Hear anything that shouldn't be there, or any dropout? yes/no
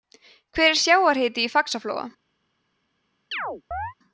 yes